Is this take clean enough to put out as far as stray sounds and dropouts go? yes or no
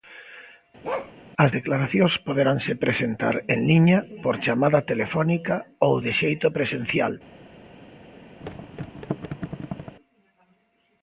no